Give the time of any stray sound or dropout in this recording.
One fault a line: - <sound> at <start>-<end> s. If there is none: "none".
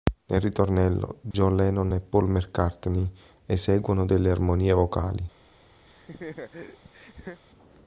- dropout at 1.3-1.3 s
- laugh at 5.9-7.4 s